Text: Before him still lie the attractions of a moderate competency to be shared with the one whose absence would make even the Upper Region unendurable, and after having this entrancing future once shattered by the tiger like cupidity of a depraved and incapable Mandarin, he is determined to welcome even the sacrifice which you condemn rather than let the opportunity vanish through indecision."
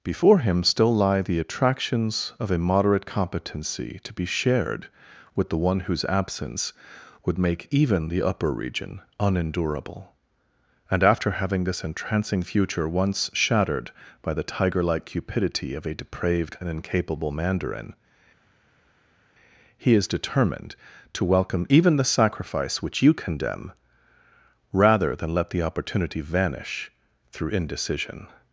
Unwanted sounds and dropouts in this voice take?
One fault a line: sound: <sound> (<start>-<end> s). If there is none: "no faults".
no faults